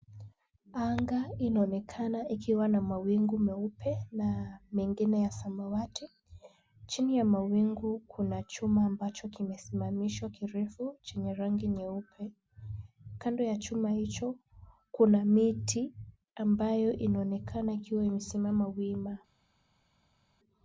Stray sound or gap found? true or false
false